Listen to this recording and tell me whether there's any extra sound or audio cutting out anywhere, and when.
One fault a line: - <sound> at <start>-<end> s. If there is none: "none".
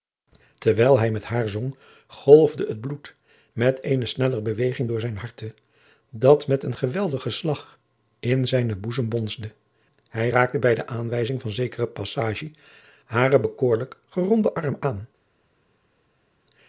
none